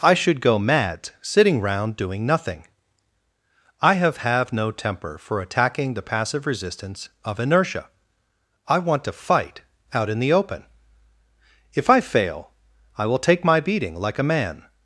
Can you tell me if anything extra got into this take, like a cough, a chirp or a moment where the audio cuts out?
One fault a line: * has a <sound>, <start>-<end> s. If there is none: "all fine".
all fine